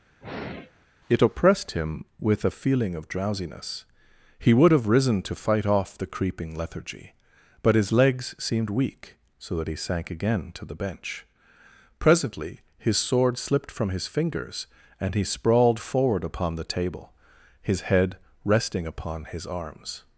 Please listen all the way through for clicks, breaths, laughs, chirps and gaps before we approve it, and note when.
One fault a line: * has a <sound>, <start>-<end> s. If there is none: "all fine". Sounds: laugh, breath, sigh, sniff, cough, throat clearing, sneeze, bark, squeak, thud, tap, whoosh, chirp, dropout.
* has a sigh, 0.2-0.9 s